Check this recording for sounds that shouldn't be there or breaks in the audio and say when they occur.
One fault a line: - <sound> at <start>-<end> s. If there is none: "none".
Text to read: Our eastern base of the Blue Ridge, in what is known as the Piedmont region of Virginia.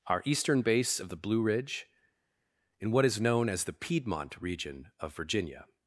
none